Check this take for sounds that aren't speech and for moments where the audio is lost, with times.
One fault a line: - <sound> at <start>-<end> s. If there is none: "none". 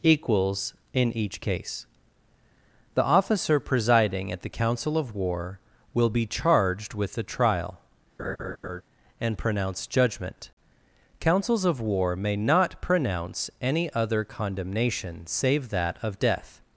- laugh at 8.2-8.8 s